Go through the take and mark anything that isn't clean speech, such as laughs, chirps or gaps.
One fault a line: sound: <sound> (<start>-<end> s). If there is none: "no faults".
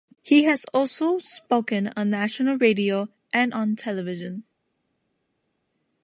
no faults